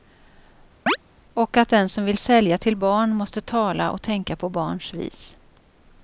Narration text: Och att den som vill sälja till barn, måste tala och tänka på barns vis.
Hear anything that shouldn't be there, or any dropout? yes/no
yes